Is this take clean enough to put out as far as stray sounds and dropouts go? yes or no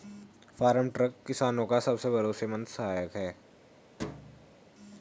no